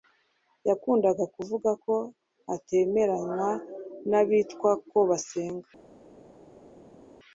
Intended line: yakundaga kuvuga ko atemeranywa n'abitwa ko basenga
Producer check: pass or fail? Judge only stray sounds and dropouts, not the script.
pass